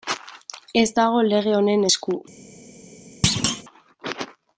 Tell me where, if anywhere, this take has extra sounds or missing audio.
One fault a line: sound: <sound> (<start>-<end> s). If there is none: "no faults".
sound: thud (3.2-3.6 s)